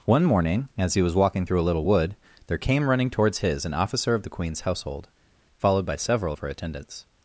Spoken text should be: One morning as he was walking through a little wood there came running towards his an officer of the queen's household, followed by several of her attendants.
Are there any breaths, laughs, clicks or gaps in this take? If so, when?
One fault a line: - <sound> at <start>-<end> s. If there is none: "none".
none